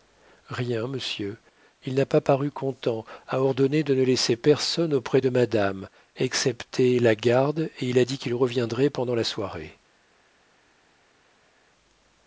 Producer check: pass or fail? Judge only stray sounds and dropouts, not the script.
pass